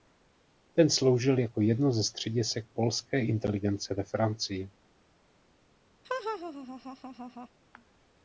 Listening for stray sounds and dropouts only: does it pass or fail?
fail